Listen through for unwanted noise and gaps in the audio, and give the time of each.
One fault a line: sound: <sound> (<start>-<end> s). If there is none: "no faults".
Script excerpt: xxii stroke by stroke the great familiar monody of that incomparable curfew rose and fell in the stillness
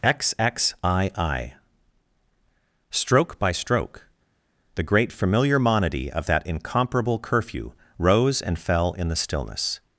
no faults